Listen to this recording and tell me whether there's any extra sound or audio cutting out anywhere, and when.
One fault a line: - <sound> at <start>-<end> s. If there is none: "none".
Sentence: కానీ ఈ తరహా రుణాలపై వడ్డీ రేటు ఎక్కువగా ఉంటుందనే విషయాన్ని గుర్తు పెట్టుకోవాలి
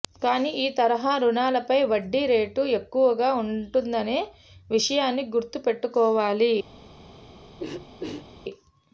- throat clearing at 7.6-8.3 s